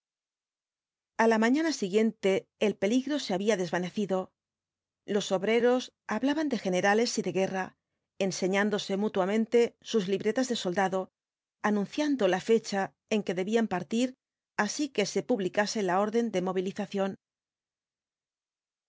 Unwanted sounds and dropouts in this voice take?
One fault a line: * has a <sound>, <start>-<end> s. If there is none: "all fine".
all fine